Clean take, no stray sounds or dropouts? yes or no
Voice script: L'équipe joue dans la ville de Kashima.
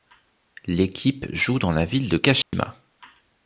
no